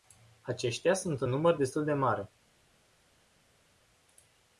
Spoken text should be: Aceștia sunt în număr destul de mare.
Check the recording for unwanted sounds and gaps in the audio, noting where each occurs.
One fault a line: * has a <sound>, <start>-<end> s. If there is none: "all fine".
all fine